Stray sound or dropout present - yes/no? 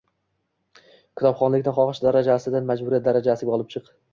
no